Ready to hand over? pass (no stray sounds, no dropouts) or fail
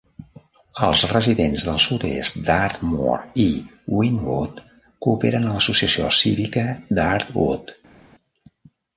pass